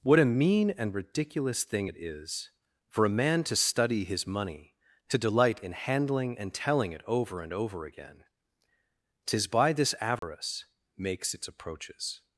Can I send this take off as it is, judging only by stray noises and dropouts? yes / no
no